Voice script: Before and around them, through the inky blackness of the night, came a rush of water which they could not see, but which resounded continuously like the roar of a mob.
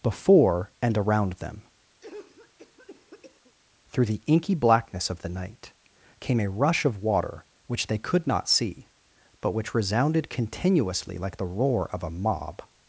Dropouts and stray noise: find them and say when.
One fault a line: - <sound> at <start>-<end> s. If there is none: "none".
- cough at 2.0-3.5 s